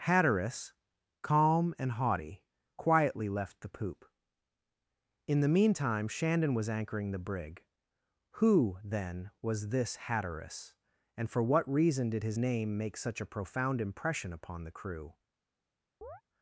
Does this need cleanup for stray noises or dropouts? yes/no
yes